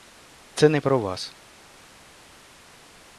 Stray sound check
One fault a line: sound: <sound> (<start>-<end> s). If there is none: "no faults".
no faults